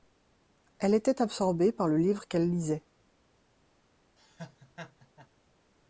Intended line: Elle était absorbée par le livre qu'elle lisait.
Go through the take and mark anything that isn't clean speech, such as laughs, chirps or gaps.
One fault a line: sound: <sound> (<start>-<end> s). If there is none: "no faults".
sound: laugh (4.2-5.3 s)